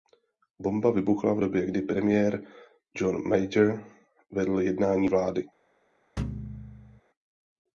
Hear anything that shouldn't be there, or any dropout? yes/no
yes